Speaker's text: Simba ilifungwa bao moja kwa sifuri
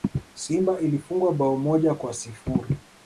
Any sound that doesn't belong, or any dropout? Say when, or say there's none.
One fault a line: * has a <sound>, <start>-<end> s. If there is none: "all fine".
all fine